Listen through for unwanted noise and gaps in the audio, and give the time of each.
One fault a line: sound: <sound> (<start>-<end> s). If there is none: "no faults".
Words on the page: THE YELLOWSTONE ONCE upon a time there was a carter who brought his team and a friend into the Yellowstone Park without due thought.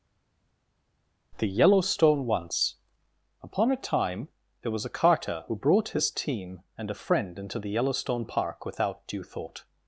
no faults